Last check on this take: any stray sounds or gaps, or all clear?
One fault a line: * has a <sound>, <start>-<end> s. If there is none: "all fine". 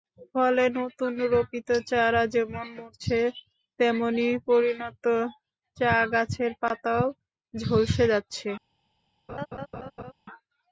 * has a laugh, 9.3-10.1 s